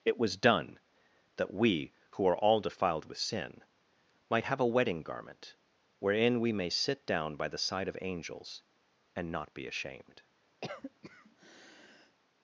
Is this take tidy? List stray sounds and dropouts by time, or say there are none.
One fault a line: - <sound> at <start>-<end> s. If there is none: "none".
- cough at 10.6-12.2 s